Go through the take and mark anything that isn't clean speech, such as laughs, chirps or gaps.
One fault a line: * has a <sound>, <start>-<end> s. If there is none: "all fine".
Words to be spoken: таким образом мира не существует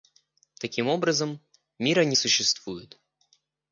all fine